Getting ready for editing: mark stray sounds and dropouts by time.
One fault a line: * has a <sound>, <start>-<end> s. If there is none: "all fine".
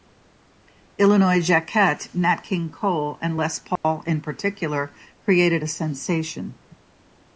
* has a dropout, 3.8-3.8 s